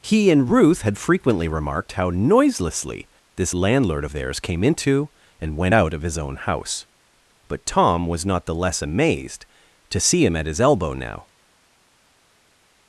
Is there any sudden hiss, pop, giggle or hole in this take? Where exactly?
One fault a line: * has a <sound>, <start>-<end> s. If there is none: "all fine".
all fine